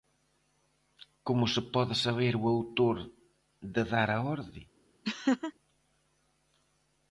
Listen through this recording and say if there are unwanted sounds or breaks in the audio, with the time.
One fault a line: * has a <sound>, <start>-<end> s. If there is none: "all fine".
* has a laugh, 5.0-5.5 s